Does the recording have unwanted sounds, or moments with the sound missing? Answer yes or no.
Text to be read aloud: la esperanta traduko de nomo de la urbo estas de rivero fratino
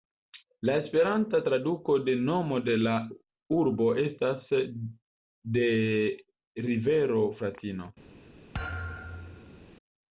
yes